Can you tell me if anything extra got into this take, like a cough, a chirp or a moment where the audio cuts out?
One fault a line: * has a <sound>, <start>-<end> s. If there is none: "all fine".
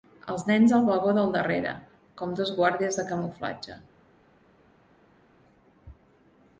all fine